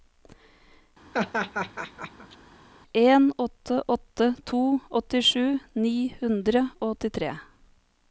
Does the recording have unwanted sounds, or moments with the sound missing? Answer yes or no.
yes